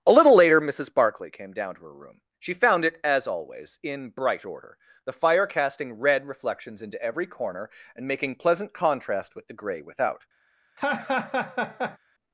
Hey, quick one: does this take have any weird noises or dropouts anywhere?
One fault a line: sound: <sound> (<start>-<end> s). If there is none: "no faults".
sound: laugh (10.8-12.0 s)